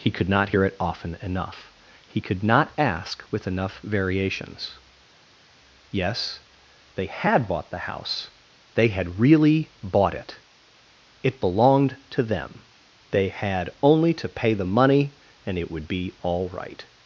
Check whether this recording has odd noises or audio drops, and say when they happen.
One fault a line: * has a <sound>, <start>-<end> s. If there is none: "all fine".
all fine